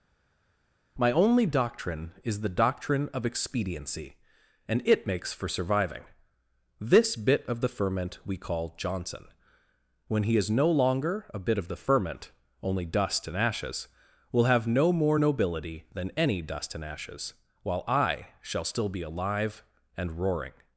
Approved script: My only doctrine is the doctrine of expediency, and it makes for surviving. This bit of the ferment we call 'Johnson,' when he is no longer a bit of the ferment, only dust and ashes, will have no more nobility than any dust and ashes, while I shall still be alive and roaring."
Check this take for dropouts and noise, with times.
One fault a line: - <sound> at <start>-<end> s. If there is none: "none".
none